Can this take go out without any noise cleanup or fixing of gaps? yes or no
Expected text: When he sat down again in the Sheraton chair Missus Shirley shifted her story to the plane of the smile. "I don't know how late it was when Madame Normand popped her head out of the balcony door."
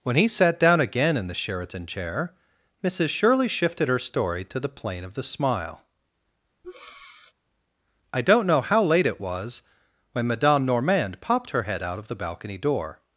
no